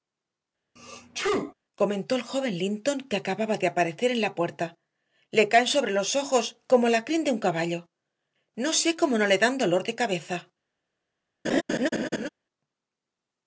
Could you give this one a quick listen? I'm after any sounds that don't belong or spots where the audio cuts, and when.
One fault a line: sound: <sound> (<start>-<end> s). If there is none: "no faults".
sound: sneeze (0.8-1.5 s)
sound: laugh (11.4-12.3 s)